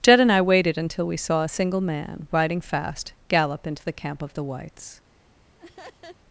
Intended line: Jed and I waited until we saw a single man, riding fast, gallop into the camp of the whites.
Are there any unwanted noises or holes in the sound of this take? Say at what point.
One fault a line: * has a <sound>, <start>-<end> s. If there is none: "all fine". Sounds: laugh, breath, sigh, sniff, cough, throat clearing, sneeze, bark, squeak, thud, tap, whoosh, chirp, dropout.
* has a laugh, 5.6-6.2 s